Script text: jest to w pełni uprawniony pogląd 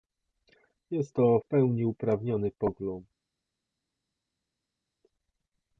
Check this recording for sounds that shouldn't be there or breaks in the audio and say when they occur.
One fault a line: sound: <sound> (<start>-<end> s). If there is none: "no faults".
no faults